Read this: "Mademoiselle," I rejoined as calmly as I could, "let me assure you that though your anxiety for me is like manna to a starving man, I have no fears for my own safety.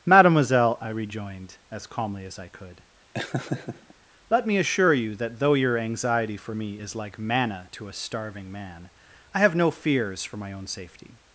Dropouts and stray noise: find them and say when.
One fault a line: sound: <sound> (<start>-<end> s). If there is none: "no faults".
sound: laugh (3.1-3.9 s)